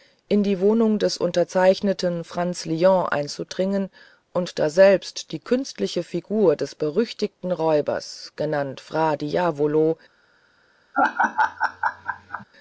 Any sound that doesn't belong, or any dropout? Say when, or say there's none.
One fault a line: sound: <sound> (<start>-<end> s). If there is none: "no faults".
sound: laugh (10.9-12.4 s)